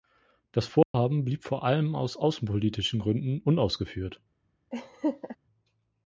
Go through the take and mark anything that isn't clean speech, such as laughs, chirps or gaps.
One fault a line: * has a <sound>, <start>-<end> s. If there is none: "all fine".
* has a dropout, 0.8-0.9 s
* has a laugh, 4.7-5.4 s